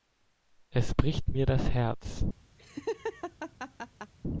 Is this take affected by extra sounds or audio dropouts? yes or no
yes